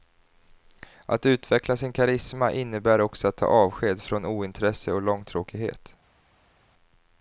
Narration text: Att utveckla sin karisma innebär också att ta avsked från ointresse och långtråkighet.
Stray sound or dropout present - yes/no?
no